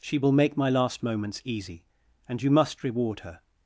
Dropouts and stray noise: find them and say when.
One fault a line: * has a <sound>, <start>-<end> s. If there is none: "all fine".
all fine